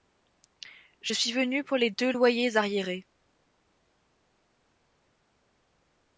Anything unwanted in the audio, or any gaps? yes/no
no